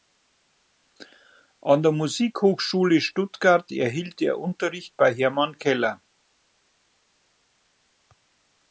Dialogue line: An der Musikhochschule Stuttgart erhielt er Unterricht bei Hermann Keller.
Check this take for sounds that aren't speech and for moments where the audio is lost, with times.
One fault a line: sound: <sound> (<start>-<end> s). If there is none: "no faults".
no faults